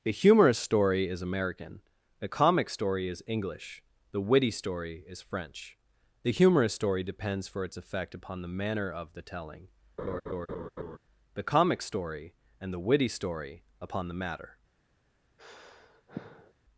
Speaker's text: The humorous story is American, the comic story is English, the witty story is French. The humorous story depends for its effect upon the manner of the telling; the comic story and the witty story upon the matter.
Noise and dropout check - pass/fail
fail